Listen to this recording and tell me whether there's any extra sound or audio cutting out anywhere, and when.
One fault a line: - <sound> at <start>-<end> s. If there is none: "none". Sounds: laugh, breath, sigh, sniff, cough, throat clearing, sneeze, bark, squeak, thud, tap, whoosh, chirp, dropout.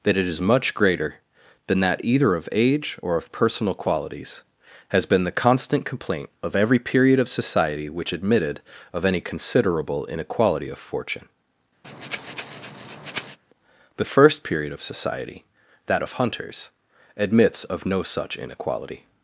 - breath at 11.8-13.4 s